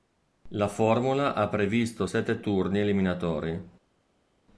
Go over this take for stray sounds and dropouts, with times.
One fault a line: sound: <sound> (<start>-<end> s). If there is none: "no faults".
no faults